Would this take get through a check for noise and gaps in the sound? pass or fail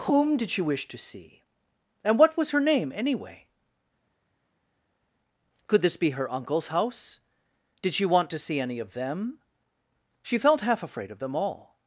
pass